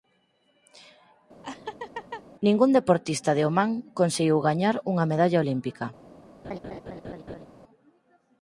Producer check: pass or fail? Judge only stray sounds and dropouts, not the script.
fail